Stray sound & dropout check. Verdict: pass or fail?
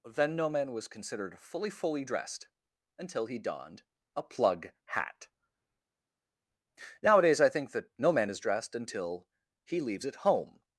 pass